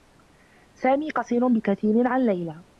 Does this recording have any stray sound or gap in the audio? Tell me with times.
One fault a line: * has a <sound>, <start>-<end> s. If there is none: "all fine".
all fine